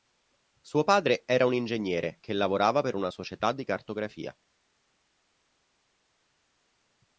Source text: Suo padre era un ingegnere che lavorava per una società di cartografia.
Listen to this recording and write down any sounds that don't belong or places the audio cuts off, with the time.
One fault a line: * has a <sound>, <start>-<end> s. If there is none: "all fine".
all fine